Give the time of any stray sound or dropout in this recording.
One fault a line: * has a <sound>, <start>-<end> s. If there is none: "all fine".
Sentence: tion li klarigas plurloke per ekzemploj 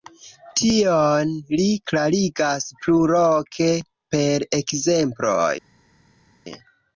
all fine